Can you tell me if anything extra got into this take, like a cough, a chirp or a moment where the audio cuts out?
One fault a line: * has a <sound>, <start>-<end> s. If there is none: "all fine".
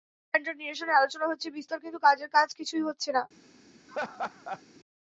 * has a laugh, 3.9-4.6 s